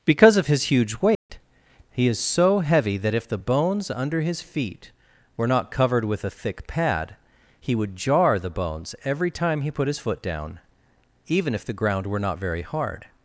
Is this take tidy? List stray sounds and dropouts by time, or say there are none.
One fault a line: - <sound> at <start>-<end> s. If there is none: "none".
- dropout at 1.2-1.3 s